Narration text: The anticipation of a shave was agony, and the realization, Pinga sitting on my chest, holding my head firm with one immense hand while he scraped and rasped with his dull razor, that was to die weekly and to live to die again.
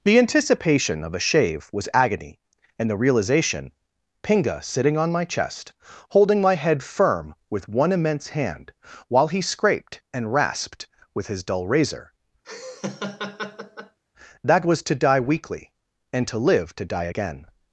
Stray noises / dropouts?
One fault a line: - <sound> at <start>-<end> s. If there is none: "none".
- laugh at 12.4-14.0 s